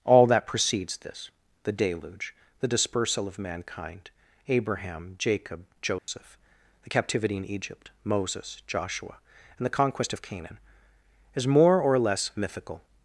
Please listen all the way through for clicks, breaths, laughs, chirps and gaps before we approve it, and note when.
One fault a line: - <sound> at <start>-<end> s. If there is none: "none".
- dropout at 6.0-6.1 s